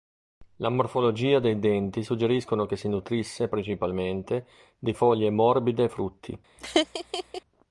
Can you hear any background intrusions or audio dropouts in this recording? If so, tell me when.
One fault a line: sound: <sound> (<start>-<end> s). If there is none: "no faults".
sound: laugh (6.6-7.4 s)